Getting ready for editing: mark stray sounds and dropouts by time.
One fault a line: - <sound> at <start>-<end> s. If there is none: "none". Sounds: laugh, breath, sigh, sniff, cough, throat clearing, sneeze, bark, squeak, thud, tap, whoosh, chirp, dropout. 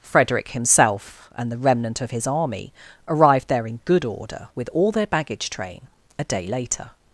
none